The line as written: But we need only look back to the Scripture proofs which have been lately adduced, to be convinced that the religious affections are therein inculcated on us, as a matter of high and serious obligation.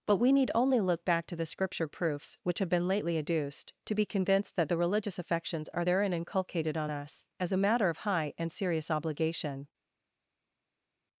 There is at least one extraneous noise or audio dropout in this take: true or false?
false